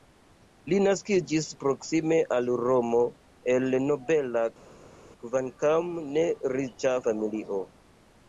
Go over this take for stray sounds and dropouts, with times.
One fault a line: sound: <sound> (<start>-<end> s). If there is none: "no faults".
no faults